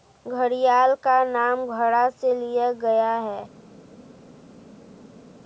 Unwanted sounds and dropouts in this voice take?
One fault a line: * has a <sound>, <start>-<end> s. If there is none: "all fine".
all fine